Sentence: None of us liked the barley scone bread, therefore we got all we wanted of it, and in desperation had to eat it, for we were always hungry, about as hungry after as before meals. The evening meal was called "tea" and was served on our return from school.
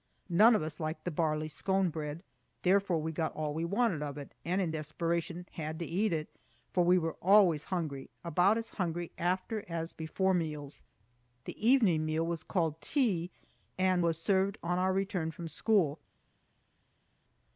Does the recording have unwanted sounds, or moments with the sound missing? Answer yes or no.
no